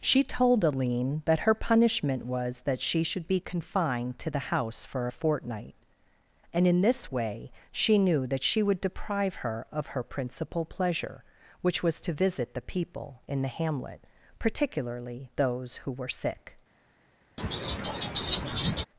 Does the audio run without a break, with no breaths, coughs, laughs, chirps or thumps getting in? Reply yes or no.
no